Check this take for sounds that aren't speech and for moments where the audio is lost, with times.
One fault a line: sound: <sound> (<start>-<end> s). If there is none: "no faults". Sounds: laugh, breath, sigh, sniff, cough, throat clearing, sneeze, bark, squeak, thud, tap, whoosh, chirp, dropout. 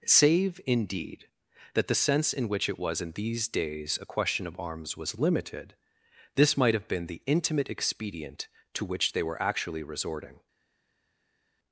no faults